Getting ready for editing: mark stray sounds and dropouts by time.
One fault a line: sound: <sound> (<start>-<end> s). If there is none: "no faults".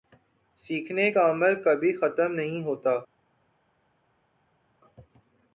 no faults